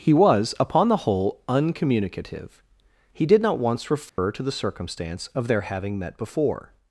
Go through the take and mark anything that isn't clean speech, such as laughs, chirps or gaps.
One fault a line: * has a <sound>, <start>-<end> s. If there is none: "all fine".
* has a dropout, 4.1-4.2 s